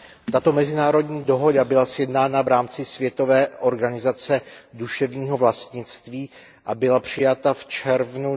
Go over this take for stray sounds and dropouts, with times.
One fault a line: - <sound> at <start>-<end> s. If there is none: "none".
none